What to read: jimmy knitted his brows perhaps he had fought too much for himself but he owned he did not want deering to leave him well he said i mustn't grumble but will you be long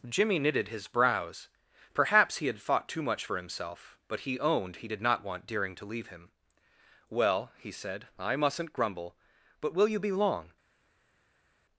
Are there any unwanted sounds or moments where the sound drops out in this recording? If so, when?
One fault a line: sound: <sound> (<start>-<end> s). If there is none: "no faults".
no faults